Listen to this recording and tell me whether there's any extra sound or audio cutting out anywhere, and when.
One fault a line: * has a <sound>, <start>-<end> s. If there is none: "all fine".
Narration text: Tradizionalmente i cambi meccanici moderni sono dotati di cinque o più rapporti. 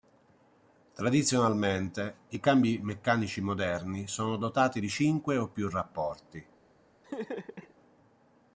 * has a laugh, 7.0-7.7 s